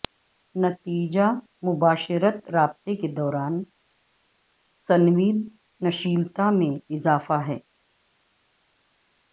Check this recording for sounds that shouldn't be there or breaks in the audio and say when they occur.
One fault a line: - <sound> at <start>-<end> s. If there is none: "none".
none